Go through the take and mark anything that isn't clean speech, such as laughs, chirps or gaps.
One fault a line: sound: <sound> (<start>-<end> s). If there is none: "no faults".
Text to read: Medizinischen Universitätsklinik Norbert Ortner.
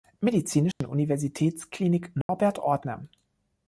sound: dropout (0.7-0.8 s)
sound: dropout (2.2-2.3 s)